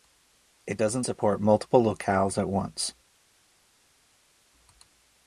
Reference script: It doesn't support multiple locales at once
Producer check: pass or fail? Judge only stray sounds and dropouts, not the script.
pass